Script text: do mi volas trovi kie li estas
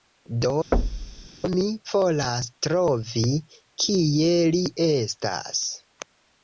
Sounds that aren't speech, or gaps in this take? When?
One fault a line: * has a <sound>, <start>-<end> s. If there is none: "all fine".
* has a thud, 0.7-1.3 s